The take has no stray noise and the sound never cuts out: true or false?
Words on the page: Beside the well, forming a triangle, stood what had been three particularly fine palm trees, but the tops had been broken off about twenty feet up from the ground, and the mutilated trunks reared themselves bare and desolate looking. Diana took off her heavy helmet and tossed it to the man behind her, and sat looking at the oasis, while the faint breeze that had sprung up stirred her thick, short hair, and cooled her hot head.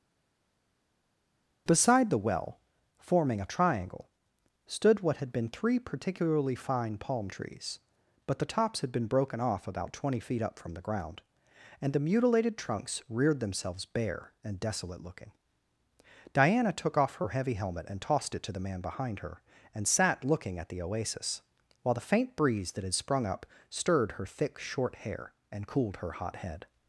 true